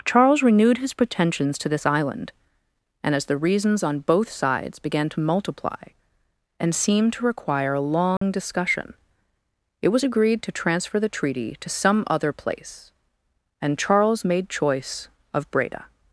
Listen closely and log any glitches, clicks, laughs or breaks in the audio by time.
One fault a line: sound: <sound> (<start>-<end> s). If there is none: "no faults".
sound: dropout (8.2-8.2 s)